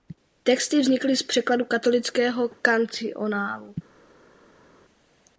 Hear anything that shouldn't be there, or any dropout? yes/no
no